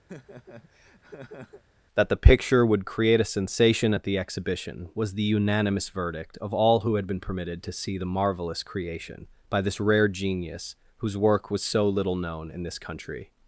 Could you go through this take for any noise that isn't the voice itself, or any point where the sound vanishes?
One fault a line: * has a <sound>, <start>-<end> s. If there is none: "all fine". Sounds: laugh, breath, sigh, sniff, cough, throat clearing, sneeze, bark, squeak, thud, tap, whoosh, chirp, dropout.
* has a laugh, 0.1-1.6 s